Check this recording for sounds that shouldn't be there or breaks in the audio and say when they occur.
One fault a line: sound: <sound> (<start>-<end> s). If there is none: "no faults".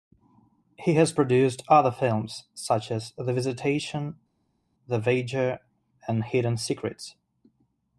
no faults